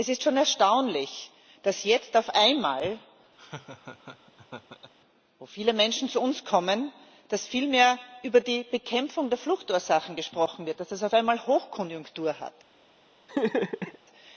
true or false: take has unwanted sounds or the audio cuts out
true